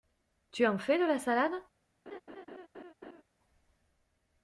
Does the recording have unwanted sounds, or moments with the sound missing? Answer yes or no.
yes